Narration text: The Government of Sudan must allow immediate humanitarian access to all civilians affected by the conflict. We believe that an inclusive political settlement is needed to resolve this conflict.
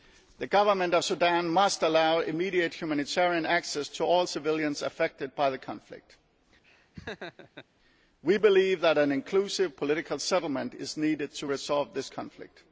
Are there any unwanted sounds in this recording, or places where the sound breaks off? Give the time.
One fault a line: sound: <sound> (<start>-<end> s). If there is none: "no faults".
sound: laugh (6.6-7.7 s)